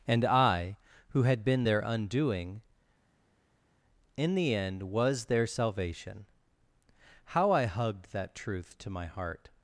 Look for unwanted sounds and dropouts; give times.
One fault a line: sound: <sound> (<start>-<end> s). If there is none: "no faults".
no faults